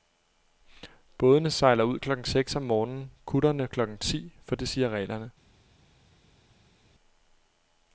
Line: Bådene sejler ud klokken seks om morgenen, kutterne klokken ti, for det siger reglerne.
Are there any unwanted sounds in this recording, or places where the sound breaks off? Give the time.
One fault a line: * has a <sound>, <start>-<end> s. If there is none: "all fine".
all fine